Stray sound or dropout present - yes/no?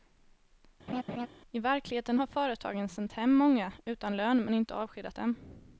yes